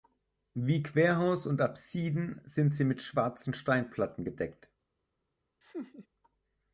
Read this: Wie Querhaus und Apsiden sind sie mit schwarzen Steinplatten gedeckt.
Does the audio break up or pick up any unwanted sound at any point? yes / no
yes